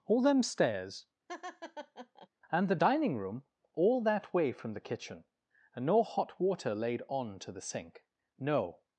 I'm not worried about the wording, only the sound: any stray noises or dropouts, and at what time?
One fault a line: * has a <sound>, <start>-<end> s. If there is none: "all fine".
* has a laugh, 1.3-2.3 s